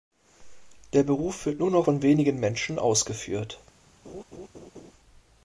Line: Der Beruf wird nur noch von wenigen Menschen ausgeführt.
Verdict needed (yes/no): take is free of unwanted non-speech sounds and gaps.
no